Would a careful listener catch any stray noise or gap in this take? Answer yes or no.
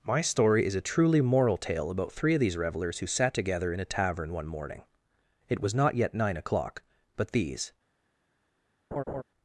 yes